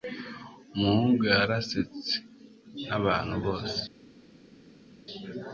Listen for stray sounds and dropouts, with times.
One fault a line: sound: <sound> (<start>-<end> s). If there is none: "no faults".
no faults